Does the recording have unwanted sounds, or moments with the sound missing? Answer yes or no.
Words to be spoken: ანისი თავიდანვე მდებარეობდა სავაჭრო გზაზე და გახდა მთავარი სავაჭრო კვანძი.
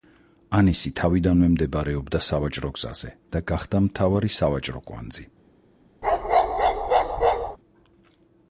yes